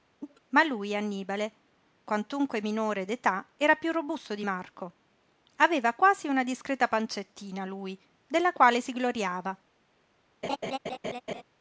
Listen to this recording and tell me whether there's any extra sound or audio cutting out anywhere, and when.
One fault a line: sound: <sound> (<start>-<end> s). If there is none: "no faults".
sound: cough (0.2-0.4 s)
sound: laugh (10.4-11.4 s)